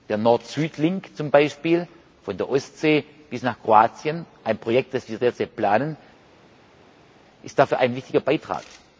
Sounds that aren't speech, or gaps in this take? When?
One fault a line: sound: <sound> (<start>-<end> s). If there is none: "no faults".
no faults